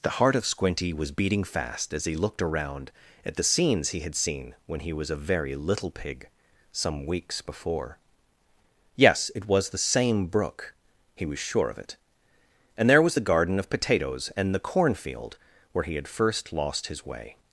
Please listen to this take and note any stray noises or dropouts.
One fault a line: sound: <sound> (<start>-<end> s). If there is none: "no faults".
no faults